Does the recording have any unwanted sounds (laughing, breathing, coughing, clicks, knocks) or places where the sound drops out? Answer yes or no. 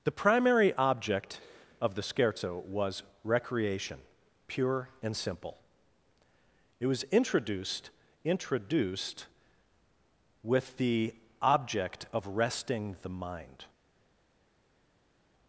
no